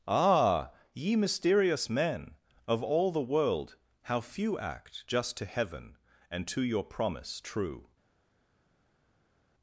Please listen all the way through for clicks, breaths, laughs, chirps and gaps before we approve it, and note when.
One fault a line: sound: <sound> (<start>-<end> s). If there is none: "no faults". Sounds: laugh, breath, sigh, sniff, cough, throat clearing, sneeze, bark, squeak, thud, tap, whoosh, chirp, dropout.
no faults